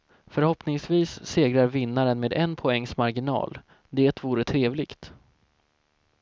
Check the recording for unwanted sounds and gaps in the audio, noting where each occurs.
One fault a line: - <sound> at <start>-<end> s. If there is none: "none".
none